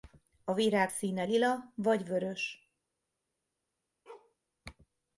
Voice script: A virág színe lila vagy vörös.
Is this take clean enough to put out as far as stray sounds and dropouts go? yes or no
no